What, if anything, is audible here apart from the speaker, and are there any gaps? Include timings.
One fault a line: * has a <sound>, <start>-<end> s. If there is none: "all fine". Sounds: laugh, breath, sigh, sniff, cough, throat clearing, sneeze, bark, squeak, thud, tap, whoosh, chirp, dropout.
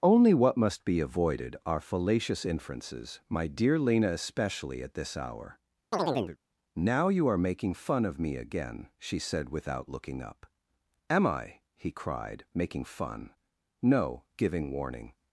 * has a chirp, 5.9-6.4 s